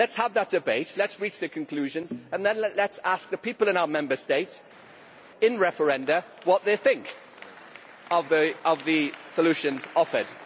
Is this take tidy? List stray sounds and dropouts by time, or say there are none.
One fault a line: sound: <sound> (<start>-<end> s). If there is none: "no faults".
no faults